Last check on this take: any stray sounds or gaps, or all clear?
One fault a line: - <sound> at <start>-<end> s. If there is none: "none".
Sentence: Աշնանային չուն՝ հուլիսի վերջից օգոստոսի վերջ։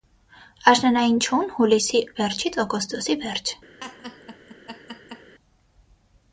- laugh at 3.8-5.3 s